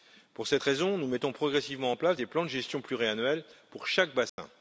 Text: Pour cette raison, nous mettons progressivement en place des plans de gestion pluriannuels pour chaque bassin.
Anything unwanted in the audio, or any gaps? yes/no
yes